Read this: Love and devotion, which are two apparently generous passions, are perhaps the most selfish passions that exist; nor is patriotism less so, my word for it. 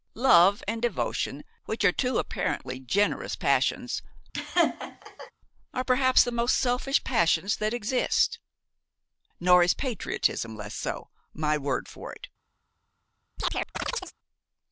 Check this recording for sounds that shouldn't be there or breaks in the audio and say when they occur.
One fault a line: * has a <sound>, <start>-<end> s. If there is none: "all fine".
* has a laugh, 4.3-5.3 s
* has a chirp, 13.4-14.1 s